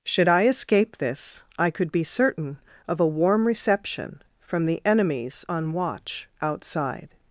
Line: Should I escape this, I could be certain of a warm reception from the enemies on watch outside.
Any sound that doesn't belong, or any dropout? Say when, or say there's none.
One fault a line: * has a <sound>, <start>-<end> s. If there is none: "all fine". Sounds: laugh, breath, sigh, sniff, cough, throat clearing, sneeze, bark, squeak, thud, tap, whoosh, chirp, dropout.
all fine